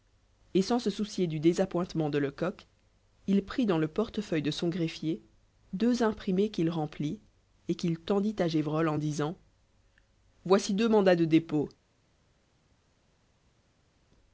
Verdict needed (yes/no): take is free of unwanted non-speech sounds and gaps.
yes